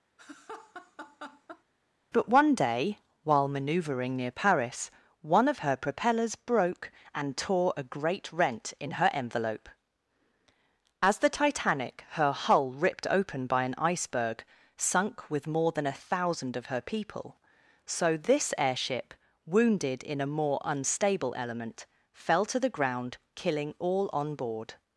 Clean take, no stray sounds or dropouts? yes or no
no